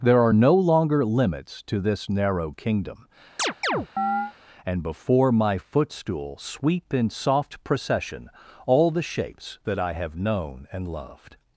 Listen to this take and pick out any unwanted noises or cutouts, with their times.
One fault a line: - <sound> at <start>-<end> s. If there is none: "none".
- chirp at 3.4-4.3 s